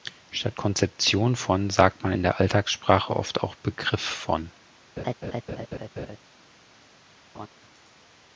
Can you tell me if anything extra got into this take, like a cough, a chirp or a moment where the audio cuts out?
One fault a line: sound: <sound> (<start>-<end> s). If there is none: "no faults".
sound: laugh (5.0-6.2 s)
sound: laugh (7.3-7.5 s)